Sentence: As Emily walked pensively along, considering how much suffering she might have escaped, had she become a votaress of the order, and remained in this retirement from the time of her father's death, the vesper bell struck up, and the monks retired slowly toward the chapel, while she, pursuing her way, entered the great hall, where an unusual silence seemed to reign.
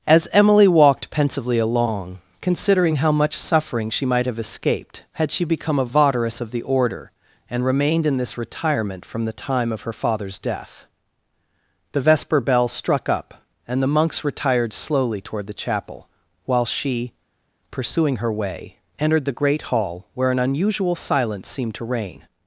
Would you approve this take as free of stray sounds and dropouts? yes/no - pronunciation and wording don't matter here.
yes